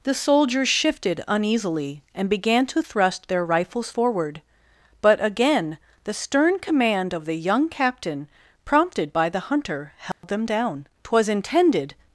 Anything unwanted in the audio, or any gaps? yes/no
yes